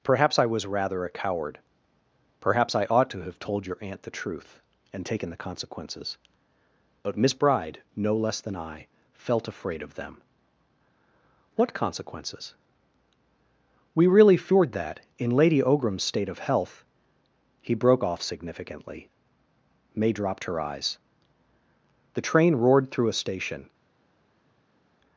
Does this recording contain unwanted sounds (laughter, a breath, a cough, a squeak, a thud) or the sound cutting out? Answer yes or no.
no